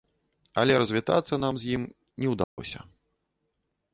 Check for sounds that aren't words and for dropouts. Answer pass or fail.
fail